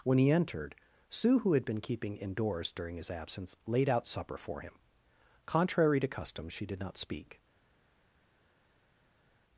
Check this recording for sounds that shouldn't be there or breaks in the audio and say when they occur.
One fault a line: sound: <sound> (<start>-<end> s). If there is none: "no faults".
no faults